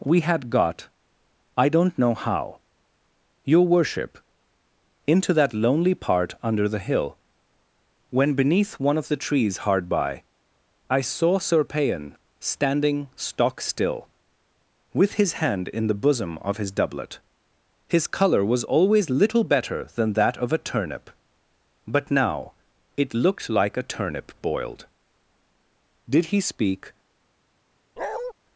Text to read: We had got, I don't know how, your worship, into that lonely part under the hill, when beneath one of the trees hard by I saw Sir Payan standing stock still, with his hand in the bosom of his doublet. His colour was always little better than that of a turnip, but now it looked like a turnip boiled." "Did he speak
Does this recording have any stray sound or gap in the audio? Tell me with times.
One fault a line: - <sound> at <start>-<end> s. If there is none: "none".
- bark at 28.0-28.3 s